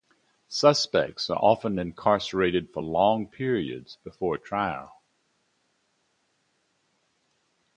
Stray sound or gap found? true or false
false